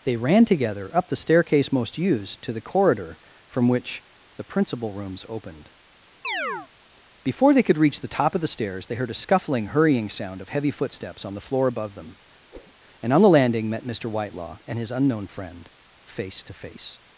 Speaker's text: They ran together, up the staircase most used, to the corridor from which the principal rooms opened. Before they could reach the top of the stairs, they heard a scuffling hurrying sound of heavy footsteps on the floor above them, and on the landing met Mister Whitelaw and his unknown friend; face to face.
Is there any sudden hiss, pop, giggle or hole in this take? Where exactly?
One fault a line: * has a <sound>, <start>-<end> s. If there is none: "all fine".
* has a chirp, 6.2-6.7 s
* has a whoosh, 12.5-12.7 s